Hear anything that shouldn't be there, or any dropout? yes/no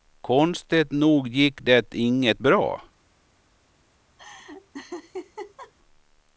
yes